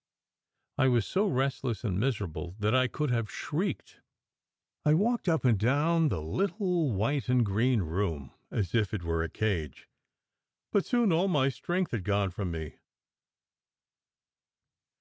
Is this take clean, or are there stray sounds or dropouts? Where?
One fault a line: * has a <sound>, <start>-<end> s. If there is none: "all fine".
all fine